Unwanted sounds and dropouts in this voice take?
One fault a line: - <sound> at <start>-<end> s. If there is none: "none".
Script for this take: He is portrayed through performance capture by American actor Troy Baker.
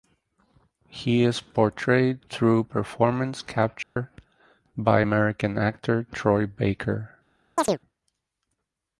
- dropout at 3.8-4.0 s
- chirp at 7.6-7.8 s